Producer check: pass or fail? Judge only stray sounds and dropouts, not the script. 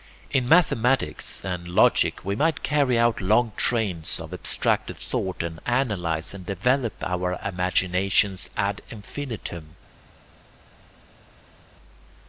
pass